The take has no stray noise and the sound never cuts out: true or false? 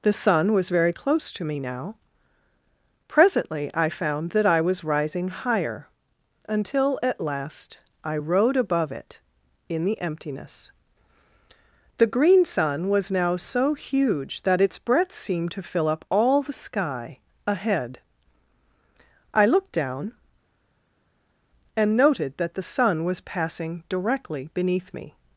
true